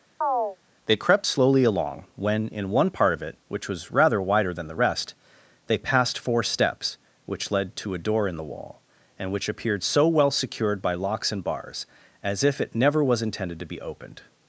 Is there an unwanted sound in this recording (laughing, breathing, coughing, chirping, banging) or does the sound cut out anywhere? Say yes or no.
yes